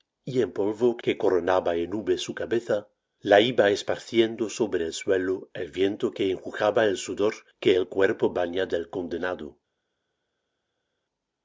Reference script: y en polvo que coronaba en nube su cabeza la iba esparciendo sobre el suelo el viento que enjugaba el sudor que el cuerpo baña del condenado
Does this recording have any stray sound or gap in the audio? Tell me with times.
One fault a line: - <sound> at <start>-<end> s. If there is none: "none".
none